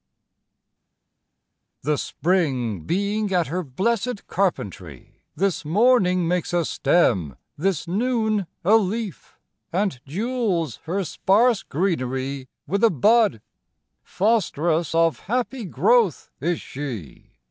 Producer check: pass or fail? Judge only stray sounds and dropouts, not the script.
pass